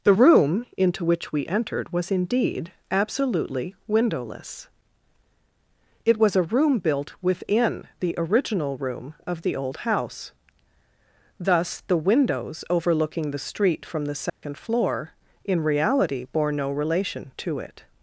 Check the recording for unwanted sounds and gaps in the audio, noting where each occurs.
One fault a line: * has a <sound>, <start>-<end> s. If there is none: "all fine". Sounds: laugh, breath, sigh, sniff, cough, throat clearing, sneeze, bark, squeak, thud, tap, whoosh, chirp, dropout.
* has a dropout, 14.3-14.4 s